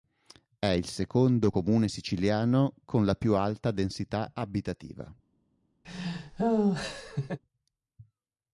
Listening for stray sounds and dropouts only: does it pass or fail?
fail